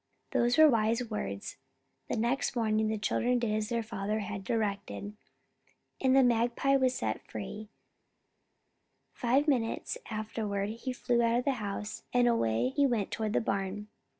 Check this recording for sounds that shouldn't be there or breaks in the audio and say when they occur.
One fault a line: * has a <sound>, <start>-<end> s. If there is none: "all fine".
all fine